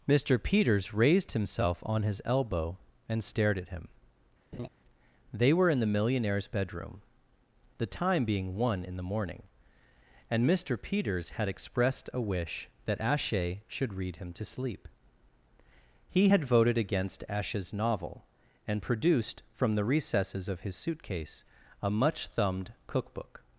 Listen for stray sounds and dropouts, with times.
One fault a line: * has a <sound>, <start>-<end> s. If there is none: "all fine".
* has a laugh, 4.5-4.7 s